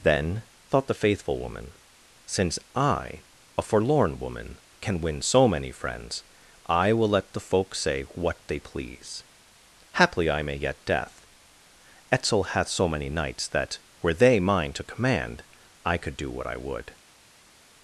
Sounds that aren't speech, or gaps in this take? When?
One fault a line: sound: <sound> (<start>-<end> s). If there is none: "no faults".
no faults